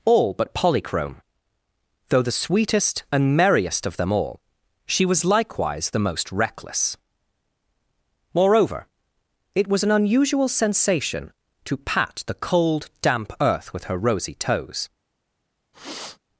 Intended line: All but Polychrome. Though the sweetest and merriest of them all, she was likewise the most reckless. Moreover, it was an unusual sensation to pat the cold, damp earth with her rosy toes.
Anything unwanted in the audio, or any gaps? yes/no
yes